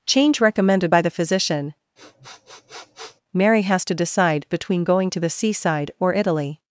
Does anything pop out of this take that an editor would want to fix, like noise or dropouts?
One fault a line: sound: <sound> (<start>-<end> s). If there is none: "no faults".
sound: sniff (2.0-3.2 s)